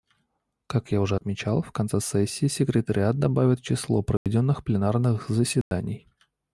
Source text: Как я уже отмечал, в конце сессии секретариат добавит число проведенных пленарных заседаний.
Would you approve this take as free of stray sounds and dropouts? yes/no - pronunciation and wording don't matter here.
no